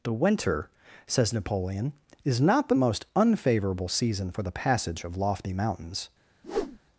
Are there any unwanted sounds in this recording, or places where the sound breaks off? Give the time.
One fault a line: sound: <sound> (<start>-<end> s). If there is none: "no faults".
sound: whoosh (6.4-6.8 s)